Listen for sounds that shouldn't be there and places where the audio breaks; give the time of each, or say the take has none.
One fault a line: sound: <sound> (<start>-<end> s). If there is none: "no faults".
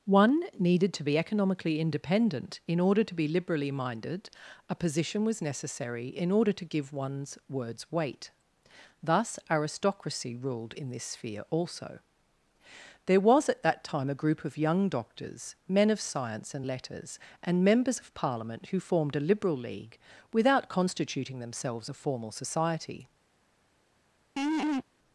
sound: laugh (24.4-24.8 s)